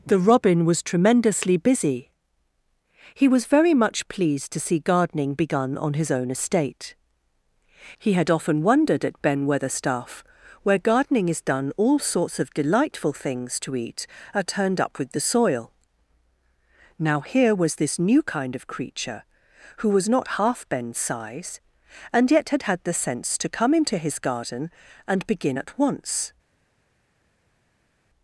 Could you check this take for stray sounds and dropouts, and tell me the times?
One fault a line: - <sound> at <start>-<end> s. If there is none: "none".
none